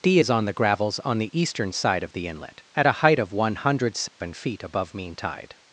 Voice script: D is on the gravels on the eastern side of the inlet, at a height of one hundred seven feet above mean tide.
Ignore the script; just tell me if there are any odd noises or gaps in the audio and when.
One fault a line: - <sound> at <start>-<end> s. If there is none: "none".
- dropout at 4.1-4.2 s